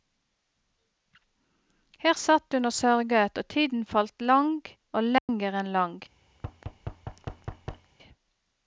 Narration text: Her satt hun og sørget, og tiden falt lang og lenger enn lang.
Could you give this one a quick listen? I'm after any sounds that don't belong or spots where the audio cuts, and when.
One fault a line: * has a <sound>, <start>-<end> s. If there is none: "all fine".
* has a dropout, 5.2-5.3 s
* has a thud, 6.3-7.9 s